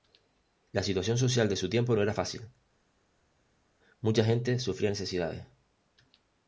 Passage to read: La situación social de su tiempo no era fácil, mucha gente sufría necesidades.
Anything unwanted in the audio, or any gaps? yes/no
no